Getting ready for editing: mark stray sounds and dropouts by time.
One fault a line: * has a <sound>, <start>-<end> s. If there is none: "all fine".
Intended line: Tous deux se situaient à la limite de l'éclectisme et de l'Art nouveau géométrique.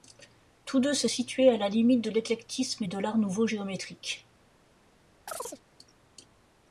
* has a chirp, 5.3-5.6 s